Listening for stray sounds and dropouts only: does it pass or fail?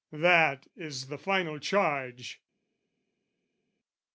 pass